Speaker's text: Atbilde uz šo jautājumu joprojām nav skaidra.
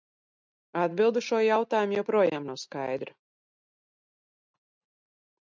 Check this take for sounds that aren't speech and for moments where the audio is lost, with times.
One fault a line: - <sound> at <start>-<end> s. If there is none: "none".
none